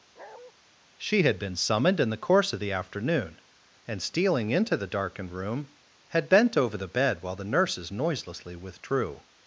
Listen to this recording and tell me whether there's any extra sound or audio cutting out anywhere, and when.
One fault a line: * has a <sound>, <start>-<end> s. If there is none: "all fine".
* has a bark, 0.2-0.5 s